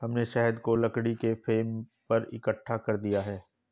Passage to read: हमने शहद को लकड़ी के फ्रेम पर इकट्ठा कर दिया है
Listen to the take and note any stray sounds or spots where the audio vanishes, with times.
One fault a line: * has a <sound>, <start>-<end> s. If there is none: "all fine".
all fine